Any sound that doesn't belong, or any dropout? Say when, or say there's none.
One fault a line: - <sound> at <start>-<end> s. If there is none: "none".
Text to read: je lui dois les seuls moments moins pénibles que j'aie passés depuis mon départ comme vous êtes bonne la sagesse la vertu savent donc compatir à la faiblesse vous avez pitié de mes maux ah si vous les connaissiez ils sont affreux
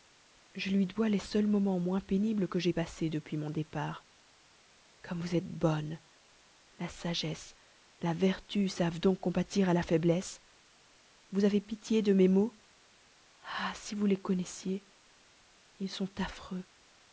none